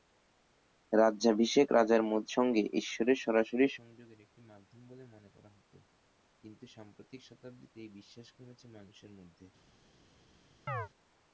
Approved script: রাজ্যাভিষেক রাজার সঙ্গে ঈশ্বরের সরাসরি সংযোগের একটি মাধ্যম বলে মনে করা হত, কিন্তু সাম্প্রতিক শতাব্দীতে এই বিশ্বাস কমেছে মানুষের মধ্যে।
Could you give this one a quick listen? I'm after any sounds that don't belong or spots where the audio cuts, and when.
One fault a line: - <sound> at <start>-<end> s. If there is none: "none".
- chirp at 10.7-10.9 s